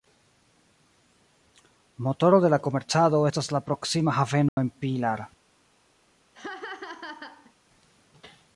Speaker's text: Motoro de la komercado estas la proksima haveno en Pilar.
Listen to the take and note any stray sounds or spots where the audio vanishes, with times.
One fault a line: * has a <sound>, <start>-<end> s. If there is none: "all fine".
* has a dropout, 4.5-4.6 s
* has a laugh, 6.3-7.5 s